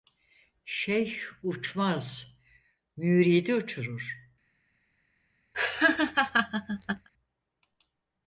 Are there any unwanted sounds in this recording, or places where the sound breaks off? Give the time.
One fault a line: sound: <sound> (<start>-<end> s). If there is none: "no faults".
sound: laugh (5.5-7.1 s)